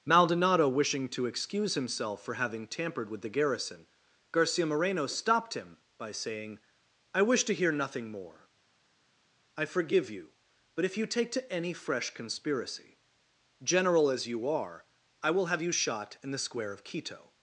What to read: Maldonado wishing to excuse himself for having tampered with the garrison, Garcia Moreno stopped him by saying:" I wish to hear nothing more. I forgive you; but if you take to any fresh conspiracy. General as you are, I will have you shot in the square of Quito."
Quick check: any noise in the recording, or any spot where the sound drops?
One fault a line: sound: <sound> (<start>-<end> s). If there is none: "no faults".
no faults